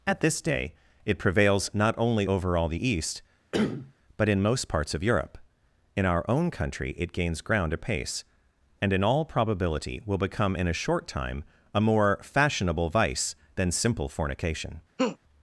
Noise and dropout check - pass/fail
fail